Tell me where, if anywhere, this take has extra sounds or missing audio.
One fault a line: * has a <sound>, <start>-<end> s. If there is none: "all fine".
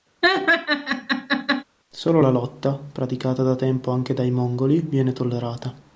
* has a laugh, 0.2-1.6 s